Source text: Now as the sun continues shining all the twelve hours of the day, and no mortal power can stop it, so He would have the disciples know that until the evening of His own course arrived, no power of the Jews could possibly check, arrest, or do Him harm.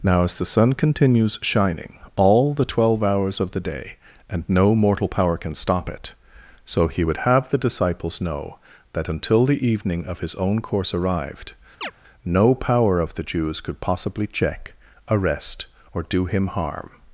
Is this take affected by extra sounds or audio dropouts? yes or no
yes